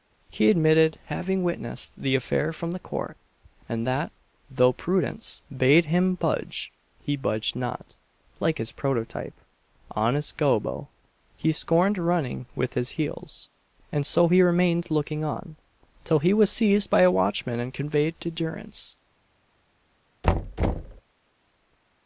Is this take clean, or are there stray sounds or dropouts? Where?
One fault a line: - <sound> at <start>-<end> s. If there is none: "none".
- thud at 20.2-21.0 s